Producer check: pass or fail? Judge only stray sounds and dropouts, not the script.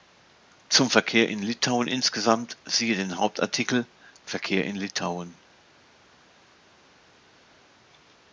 pass